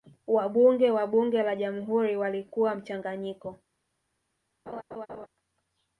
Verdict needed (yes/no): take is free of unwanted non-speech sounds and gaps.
no